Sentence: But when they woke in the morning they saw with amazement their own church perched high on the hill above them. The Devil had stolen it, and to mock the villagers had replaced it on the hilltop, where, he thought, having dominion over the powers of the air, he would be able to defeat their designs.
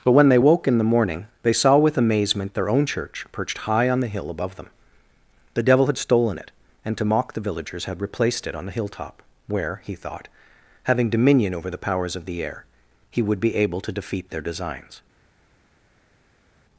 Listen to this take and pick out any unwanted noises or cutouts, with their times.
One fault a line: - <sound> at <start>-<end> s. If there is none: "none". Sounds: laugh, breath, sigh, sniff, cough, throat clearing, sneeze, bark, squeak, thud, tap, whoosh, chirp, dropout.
none